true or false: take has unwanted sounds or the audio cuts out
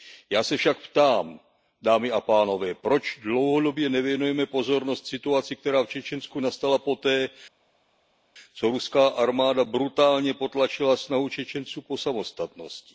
false